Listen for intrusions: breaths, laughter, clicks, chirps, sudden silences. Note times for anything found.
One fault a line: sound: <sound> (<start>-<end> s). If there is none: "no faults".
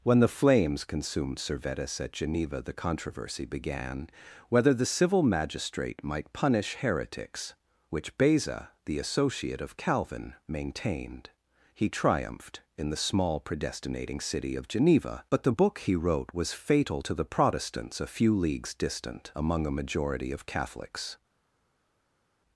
no faults